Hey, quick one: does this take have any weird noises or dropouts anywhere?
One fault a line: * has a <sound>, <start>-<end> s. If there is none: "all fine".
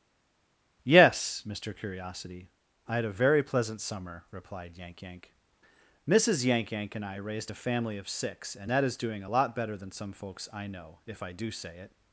all fine